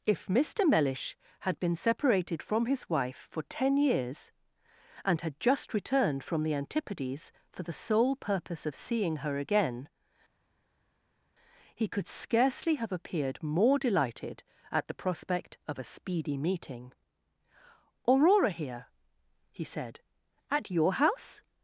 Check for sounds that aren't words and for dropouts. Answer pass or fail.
pass